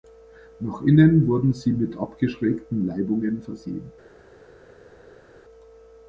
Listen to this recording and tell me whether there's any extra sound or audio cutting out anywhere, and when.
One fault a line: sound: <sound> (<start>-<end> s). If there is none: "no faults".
no faults